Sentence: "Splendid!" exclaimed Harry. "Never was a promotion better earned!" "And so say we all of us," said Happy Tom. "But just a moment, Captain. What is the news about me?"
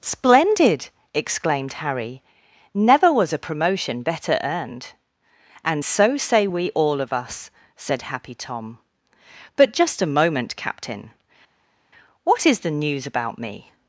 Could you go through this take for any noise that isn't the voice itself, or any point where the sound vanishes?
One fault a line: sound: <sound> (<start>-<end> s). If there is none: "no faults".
no faults